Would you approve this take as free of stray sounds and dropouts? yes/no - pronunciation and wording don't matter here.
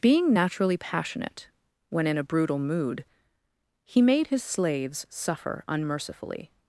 yes